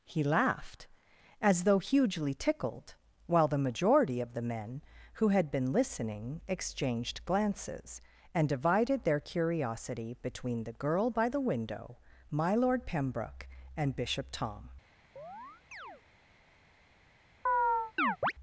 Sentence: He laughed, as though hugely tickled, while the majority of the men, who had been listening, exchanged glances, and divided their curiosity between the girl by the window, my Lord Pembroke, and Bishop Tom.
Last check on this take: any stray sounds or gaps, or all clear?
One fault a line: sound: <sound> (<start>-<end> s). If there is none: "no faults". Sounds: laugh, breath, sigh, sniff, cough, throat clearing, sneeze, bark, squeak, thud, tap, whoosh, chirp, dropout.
sound: chirp (15.2-16.0 s)
sound: chirp (17.5-18.3 s)